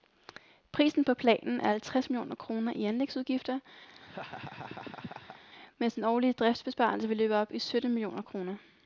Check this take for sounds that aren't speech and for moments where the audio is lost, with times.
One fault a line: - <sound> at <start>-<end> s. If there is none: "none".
- laugh at 3.9-5.4 s